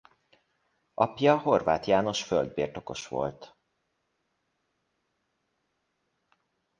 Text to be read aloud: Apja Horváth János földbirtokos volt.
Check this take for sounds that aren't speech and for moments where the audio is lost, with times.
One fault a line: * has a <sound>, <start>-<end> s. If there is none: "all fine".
all fine